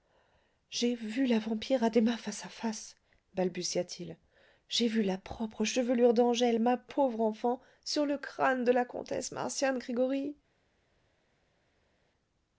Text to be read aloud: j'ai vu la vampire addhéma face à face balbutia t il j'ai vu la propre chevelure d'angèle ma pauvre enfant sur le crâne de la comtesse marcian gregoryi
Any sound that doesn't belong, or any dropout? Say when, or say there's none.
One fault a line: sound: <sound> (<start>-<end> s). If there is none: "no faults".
no faults